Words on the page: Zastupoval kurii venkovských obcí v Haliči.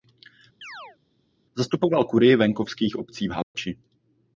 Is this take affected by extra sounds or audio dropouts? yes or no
yes